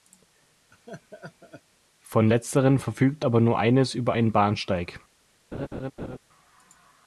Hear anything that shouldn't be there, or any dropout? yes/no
yes